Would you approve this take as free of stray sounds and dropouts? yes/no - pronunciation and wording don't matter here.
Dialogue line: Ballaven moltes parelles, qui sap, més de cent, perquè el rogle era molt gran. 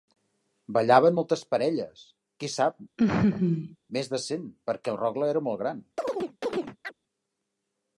no